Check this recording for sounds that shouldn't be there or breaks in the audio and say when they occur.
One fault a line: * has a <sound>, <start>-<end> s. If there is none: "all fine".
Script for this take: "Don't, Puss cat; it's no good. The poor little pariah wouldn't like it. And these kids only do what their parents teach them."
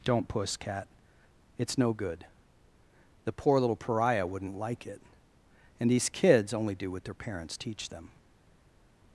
all fine